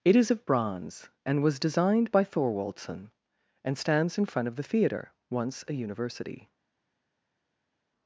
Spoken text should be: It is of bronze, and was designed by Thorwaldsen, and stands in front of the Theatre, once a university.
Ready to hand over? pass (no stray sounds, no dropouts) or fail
pass